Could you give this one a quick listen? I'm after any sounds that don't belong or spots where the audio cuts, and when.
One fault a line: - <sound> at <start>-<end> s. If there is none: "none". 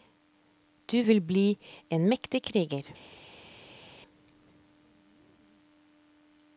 none